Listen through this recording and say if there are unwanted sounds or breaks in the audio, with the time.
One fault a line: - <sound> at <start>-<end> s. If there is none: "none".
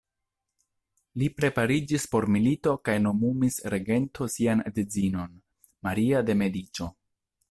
none